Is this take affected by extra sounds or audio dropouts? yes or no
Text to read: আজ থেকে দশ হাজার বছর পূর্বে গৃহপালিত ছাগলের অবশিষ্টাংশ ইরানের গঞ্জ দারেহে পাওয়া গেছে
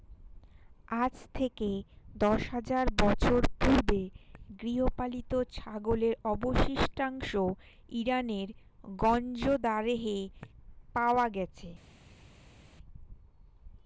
no